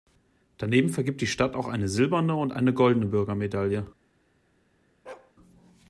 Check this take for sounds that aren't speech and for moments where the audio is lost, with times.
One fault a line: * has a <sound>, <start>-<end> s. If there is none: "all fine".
* has a bark, 5.0-5.3 s